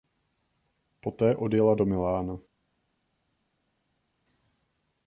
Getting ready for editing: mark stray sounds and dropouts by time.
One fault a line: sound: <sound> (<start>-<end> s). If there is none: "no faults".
no faults